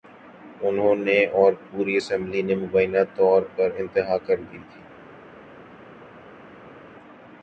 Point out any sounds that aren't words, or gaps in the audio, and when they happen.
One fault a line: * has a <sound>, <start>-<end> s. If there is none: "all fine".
all fine